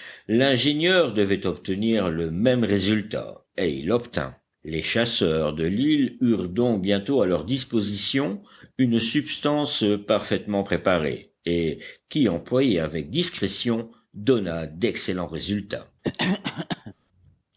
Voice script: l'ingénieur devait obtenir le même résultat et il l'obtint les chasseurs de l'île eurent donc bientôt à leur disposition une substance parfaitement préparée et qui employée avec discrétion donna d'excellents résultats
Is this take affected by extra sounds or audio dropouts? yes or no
yes